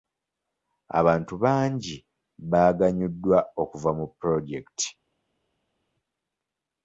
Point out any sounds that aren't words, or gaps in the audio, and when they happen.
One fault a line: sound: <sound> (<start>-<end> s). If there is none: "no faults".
no faults